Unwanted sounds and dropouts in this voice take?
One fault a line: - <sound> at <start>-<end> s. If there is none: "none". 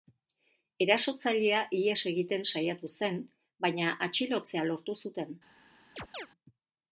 - chirp at 6.0-6.3 s